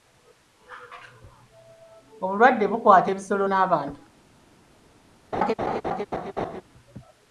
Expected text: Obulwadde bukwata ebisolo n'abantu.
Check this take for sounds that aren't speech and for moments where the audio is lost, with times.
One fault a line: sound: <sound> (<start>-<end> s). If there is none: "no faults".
sound: laugh (5.3-6.6 s)